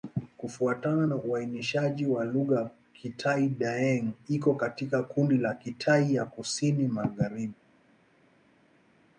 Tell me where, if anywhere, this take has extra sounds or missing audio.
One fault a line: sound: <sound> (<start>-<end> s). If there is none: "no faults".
no faults